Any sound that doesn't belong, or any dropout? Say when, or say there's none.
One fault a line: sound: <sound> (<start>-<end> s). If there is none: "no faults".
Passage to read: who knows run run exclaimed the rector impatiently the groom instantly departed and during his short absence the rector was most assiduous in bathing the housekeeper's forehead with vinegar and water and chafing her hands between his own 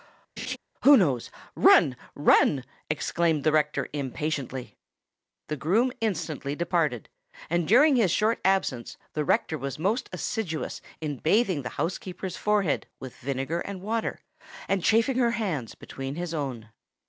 sound: laugh (0.4-0.6 s)